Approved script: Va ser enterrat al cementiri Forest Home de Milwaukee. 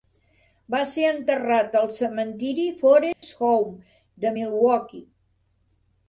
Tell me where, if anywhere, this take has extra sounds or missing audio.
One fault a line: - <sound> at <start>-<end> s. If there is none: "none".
- dropout at 3.1-3.2 s